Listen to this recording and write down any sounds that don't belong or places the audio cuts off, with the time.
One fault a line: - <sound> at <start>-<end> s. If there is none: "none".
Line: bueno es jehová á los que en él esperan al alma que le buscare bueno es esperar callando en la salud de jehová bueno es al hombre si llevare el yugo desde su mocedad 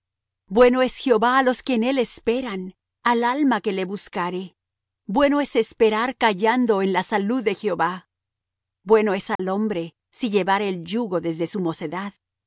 - dropout at 9.4-9.4 s